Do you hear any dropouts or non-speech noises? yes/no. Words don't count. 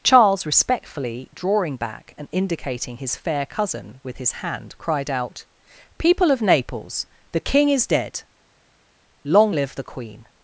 no